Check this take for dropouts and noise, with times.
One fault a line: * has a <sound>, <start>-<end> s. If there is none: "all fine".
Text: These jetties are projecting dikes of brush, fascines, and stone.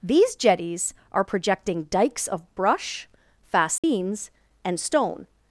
* has a dropout, 3.8-3.8 s